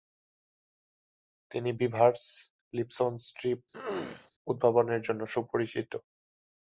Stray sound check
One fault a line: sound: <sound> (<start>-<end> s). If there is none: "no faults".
sound: throat clearing (3.7-4.3 s)